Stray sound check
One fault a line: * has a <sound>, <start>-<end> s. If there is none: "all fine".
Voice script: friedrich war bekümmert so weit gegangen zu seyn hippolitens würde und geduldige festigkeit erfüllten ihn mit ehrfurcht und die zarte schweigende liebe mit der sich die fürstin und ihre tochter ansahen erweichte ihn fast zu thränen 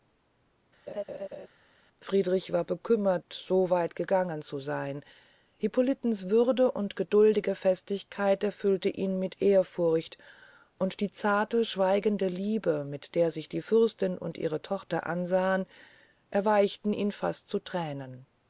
* has a laugh, 0.9-1.5 s